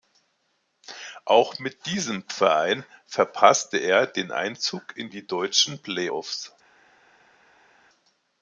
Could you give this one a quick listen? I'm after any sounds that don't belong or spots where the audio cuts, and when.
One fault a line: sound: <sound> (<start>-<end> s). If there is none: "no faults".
no faults